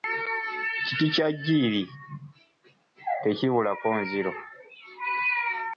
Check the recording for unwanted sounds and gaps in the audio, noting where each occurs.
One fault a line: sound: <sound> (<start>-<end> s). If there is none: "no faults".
no faults